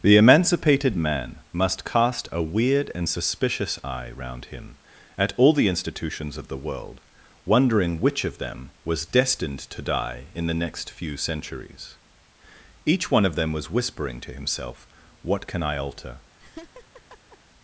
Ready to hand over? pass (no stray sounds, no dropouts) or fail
fail